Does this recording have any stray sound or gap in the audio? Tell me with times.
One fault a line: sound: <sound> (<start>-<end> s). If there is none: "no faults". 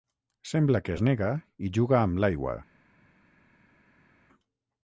no faults